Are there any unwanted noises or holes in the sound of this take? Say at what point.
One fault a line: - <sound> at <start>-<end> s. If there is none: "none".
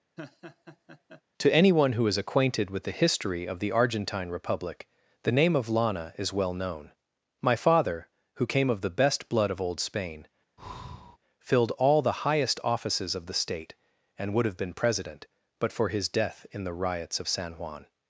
- laugh at 0.2-1.2 s
- breath at 10.6-11.2 s